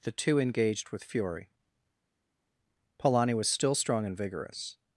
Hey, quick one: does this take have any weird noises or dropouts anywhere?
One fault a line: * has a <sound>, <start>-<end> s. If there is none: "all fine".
all fine